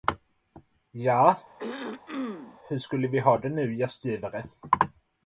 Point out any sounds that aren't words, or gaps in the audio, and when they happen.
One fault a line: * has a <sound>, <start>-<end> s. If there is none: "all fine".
* has a throat clearing, 1.6-2.6 s